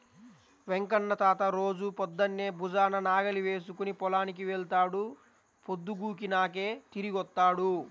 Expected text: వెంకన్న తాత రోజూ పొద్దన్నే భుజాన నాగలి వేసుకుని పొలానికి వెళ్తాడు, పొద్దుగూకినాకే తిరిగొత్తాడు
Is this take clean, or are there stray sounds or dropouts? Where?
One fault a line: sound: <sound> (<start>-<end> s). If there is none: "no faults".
no faults